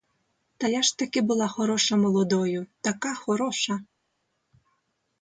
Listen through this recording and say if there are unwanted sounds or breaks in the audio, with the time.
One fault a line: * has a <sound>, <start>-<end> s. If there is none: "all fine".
all fine